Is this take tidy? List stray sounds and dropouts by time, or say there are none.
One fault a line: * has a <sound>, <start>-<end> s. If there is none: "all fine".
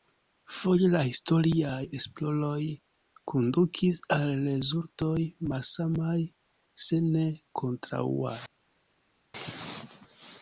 all fine